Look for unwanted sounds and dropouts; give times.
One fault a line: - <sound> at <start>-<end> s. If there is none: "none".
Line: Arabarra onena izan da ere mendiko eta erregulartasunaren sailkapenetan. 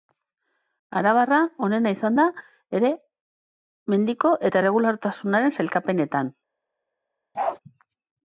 - bark at 7.3-7.6 s